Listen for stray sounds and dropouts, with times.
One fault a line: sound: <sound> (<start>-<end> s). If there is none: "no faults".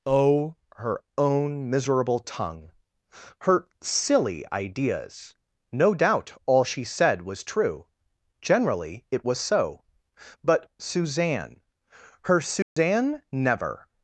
sound: dropout (12.6-12.8 s)